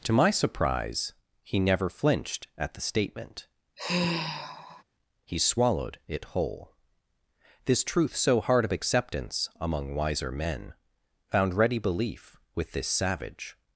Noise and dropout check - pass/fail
fail